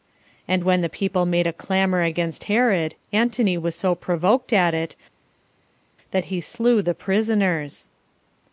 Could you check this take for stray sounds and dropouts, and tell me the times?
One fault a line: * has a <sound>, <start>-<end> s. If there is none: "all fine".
all fine